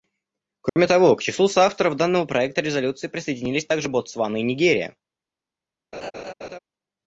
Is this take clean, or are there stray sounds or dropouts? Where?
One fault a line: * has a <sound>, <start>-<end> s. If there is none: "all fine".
* has a dropout, 0.7-0.8 s
* has a laugh, 5.9-6.6 s